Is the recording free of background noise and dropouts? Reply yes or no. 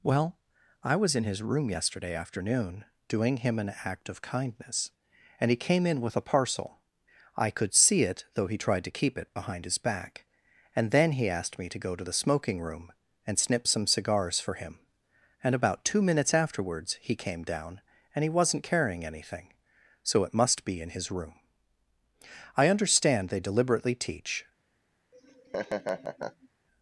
no